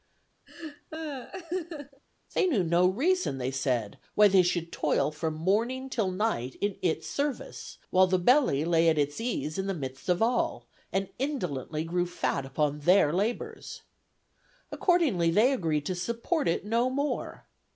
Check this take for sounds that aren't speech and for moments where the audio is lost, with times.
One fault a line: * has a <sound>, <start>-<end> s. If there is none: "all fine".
* has a laugh, 0.5-2.0 s